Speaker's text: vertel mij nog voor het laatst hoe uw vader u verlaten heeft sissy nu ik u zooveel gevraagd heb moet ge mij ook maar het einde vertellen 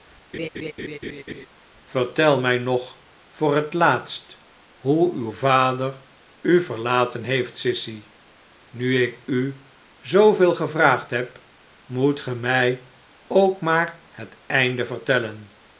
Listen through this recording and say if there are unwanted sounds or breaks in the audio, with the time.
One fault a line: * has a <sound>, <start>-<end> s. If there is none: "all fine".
* has a laugh, 0.3-1.5 s